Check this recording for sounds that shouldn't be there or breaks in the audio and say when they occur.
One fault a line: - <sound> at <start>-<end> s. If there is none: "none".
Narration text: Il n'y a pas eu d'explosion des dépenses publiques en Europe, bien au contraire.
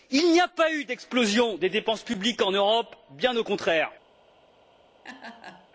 - laugh at 5.0-5.7 s